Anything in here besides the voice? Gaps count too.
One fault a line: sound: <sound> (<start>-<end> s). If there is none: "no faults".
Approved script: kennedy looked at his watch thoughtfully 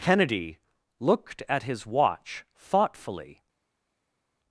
no faults